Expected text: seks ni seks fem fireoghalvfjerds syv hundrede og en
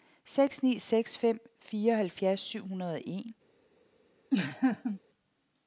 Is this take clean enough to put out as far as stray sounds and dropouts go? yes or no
no